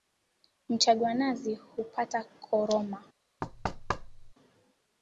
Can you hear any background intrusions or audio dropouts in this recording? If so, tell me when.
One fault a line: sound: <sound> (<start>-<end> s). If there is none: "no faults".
sound: thud (3.4-4.3 s)